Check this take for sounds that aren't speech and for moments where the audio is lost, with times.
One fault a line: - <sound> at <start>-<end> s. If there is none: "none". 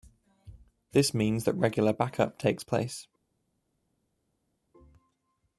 none